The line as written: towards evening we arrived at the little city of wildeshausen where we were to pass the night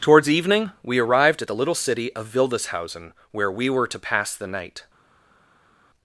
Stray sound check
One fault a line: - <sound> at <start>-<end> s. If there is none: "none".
none